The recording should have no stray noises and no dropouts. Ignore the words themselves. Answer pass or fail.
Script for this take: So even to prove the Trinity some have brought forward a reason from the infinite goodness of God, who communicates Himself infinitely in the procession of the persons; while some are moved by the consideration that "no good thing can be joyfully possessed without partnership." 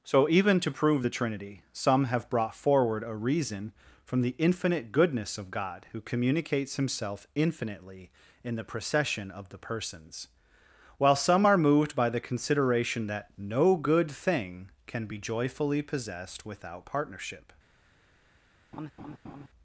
fail